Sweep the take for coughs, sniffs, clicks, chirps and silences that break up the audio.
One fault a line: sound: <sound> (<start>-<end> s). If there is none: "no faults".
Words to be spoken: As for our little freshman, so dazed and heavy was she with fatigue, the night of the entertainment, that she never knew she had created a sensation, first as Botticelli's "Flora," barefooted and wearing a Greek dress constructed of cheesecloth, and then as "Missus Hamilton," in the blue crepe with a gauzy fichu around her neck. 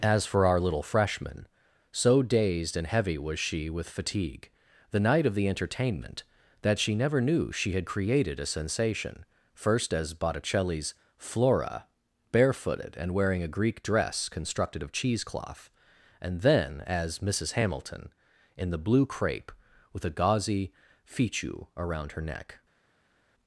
no faults